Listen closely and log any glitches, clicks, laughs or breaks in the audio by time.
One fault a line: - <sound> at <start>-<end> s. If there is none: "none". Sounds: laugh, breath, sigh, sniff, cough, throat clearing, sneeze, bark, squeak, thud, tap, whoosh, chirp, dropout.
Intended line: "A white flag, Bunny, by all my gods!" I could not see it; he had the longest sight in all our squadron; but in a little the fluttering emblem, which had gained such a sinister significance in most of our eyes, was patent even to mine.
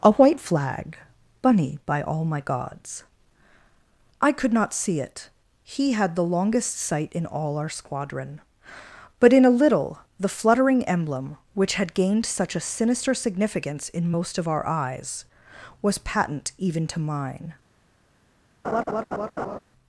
- laugh at 18.6-19.6 s